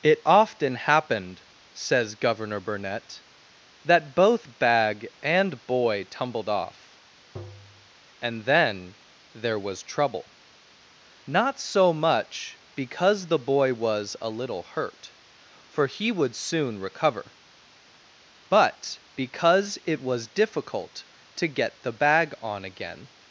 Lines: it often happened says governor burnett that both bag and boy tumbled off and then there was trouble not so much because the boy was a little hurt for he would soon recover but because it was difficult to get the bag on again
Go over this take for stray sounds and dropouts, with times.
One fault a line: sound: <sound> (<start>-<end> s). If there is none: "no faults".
sound: tap (7.4-7.9 s)